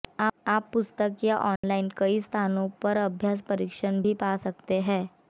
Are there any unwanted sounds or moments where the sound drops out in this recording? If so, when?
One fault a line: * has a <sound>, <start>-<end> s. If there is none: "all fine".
* has a dropout, 1.6-1.6 s